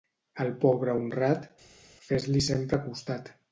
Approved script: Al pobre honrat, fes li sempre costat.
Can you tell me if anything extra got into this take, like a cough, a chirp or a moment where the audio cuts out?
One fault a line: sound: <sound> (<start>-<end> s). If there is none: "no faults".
no faults